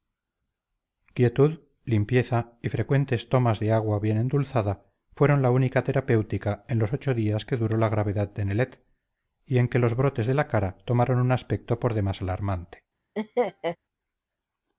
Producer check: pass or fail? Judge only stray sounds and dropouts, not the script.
fail